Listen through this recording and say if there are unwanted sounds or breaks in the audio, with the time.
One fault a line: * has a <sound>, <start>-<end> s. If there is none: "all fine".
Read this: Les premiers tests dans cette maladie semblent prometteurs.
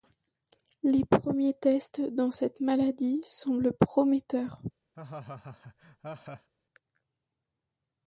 * has a laugh, 4.9-6.5 s